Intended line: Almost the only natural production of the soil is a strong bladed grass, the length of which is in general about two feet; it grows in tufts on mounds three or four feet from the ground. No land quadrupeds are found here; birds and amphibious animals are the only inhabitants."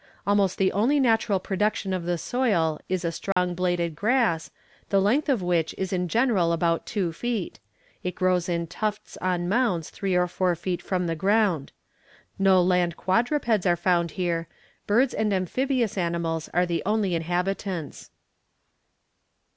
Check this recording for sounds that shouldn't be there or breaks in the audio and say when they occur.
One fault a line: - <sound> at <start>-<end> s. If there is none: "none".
- dropout at 3.3-3.4 s